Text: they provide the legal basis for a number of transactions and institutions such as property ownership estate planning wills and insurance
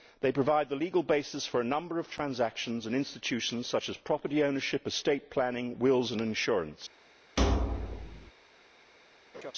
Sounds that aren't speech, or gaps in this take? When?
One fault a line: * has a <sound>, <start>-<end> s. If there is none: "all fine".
* has a thud, 7.4-8.3 s
* has a laugh, 9.3-9.5 s